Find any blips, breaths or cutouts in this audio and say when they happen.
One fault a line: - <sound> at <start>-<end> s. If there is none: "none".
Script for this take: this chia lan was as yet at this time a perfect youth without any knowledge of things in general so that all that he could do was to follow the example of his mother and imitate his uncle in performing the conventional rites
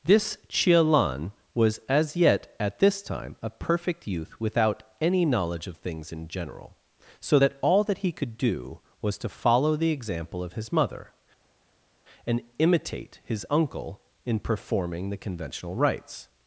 none